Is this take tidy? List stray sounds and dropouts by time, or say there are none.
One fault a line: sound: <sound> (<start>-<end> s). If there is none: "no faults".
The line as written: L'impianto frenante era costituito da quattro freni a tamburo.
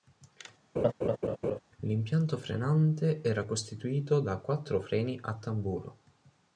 sound: laugh (0.8-1.6 s)